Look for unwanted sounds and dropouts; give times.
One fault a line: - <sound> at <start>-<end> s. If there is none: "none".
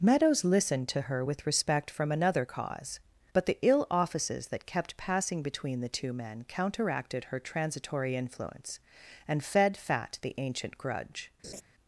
- laugh at 11.4-11.6 s